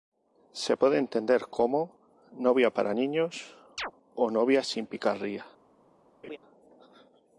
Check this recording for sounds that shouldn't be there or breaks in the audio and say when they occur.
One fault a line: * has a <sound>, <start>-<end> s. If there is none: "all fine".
* has a chirp, 3.8-3.9 s
* has a laugh, 6.2-6.4 s